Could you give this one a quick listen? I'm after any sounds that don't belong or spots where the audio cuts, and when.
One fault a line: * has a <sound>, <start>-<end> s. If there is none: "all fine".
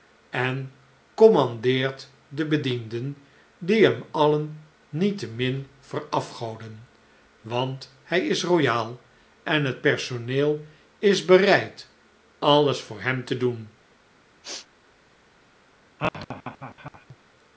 * has a sneeze, 14.4-14.7 s
* has a laugh, 16.0-17.2 s